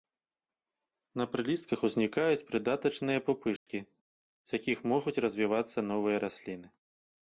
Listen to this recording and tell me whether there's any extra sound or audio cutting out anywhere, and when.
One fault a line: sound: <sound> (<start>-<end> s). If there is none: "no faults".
sound: dropout (3.6-3.7 s)